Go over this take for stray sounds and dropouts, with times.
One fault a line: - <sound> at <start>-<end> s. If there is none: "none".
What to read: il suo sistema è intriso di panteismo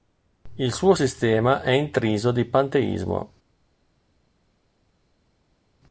none